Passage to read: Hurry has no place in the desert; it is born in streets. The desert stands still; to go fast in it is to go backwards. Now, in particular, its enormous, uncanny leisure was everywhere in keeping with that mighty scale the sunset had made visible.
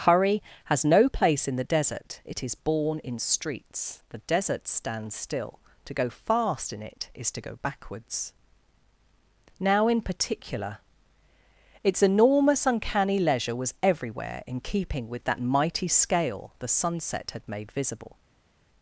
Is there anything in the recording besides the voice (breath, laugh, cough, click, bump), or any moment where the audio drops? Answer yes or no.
no